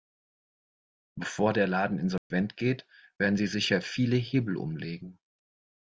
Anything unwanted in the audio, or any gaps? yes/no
yes